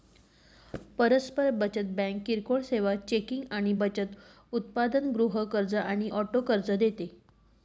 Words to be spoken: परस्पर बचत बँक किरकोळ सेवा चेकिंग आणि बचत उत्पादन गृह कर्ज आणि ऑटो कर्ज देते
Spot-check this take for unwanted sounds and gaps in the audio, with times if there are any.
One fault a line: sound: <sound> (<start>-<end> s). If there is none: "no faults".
no faults